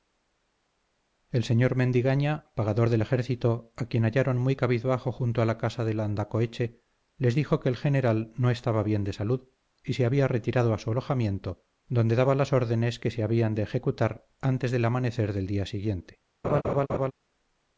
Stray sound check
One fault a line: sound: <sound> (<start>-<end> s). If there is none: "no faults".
sound: laugh (16.4-17.1 s)